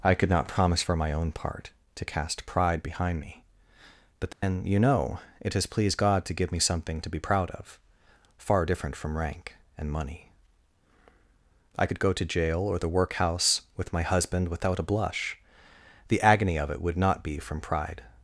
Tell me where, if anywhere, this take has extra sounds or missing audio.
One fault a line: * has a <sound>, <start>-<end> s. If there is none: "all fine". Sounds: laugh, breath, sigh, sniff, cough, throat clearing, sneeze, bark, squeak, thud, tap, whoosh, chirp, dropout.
* has a dropout, 4.3-4.4 s